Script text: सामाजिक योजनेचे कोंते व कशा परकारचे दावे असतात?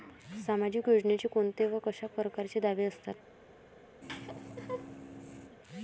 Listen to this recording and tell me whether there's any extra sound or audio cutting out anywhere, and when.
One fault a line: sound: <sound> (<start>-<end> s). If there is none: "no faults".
sound: laugh (4.0-5.6 s)